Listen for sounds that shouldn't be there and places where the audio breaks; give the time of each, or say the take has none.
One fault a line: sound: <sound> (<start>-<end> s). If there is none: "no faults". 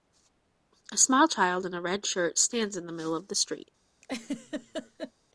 sound: laugh (4.0-5.1 s)